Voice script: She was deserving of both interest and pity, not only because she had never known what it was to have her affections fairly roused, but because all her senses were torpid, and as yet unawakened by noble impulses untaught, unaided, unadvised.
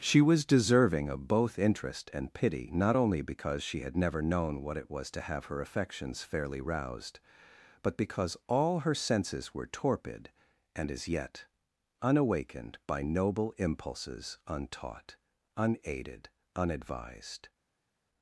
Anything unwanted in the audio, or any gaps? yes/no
no